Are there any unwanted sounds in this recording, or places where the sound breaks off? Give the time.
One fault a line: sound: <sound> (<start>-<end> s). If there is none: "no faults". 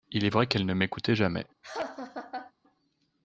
sound: laugh (1.6-2.5 s)